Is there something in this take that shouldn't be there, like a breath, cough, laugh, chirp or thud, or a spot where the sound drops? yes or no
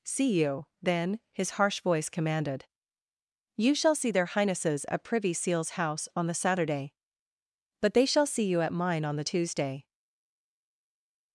no